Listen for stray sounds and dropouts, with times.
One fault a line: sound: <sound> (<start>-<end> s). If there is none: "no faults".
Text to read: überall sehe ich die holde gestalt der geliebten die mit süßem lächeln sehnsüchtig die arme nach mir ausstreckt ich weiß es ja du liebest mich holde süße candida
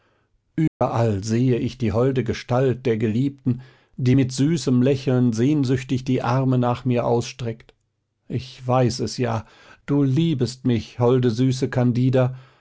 sound: dropout (0.7-0.8 s)